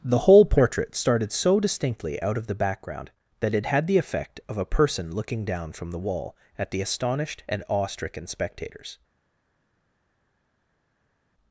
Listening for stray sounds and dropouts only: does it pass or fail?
pass